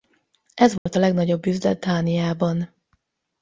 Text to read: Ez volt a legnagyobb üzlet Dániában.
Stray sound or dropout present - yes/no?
yes